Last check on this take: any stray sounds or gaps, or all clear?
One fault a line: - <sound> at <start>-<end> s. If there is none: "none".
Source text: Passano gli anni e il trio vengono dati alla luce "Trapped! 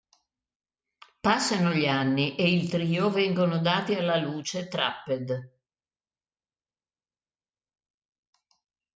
none